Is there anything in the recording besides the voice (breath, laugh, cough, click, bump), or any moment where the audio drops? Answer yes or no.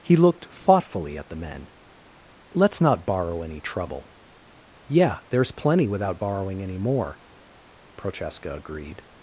no